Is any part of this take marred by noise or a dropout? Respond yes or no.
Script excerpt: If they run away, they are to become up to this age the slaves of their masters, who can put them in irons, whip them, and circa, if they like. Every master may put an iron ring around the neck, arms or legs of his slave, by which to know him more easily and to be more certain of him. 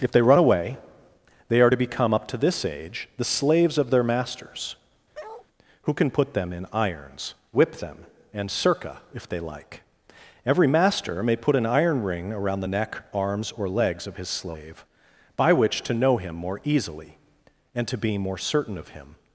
yes